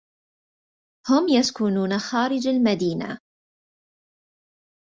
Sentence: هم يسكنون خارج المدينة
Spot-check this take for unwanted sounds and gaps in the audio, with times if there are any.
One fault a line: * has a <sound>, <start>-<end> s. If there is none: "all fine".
all fine